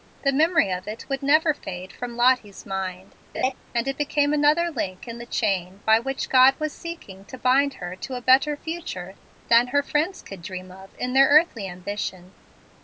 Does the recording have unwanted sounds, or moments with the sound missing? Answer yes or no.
yes